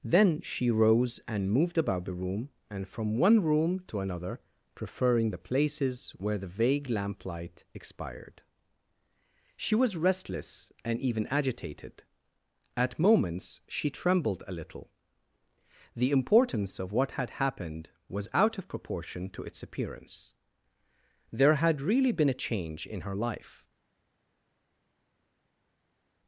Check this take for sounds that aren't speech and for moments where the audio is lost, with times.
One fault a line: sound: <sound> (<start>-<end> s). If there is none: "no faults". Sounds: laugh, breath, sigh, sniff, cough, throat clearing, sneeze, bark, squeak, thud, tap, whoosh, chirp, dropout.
no faults